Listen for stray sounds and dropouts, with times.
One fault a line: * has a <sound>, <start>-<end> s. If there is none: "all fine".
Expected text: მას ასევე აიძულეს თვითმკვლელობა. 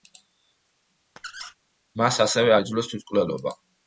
* has a squeak, 1.2-1.5 s